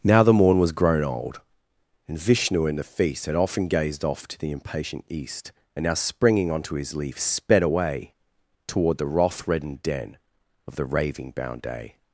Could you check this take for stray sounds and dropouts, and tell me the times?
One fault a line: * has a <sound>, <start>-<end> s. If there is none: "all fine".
all fine